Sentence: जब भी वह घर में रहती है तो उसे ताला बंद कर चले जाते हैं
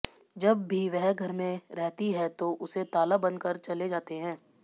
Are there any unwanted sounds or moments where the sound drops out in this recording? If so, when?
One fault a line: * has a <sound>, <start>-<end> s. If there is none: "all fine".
all fine